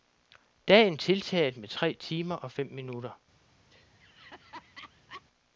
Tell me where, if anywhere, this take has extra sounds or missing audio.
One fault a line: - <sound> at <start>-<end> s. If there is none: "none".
- laugh at 3.7-5.2 s